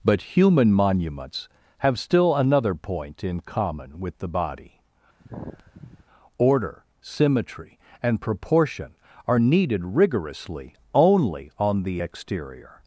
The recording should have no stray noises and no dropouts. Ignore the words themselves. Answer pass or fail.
fail